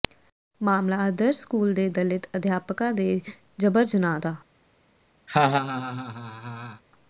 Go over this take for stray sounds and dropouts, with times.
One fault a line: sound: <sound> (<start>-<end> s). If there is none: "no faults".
sound: laugh (5.3-6.8 s)